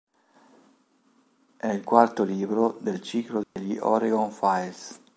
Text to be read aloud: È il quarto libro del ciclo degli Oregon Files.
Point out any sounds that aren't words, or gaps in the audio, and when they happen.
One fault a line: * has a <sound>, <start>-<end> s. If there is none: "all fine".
* has a dropout, 3.4-3.6 s